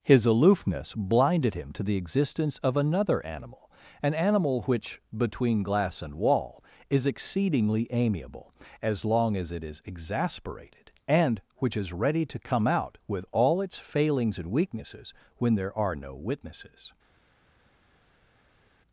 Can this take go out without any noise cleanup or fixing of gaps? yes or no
yes